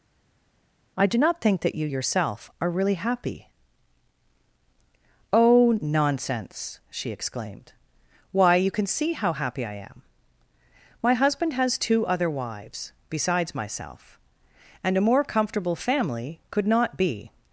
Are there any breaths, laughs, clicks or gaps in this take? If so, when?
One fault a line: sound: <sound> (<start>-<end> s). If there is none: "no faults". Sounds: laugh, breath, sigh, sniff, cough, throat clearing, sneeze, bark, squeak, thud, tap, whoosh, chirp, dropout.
no faults